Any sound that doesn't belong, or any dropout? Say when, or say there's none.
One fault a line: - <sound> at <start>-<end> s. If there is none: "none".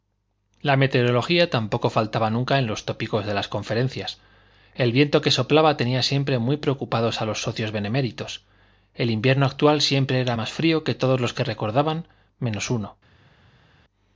none